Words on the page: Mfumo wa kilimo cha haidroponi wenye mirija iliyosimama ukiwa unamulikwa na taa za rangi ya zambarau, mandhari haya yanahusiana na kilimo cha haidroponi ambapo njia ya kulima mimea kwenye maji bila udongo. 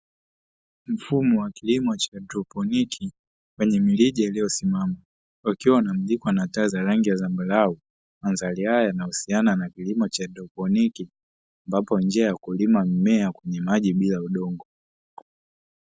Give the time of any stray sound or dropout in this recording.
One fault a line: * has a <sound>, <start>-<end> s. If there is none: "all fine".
all fine